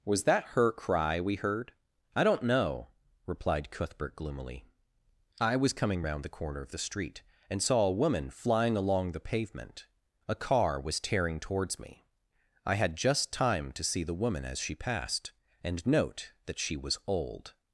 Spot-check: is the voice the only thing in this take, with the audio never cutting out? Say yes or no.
yes